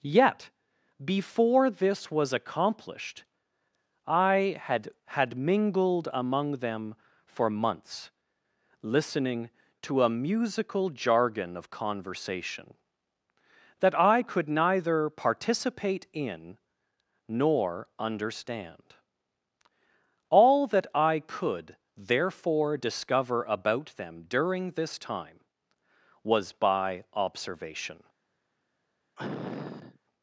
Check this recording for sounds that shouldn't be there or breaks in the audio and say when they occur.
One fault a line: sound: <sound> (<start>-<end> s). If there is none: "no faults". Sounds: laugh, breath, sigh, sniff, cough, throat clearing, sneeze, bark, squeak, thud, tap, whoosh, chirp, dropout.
sound: sniff (29.2-30.0 s)